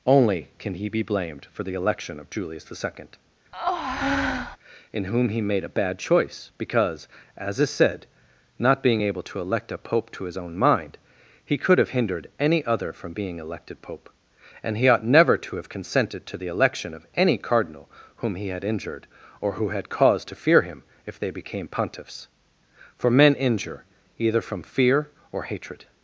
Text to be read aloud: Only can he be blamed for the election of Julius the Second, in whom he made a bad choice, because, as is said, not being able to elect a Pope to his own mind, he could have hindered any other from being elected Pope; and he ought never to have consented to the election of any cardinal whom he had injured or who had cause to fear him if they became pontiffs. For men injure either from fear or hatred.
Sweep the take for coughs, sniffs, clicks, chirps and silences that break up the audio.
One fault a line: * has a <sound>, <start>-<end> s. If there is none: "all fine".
* has a breath, 3.5-4.6 s